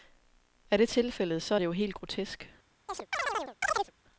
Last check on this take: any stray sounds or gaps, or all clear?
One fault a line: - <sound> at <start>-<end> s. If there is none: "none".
- chirp at 2.9-3.9 s